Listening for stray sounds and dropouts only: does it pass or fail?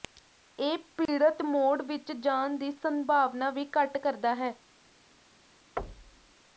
fail